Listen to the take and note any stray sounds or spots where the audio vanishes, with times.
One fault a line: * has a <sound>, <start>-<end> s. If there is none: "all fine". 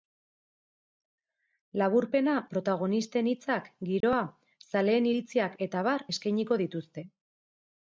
* has a dropout, 4.0-4.0 s